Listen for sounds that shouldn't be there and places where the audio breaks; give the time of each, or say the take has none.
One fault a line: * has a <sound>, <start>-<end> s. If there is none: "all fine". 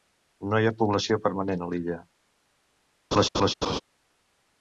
* has a laugh, 3.1-3.8 s